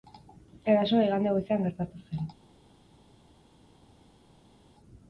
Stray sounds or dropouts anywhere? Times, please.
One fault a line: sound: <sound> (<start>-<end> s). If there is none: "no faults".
no faults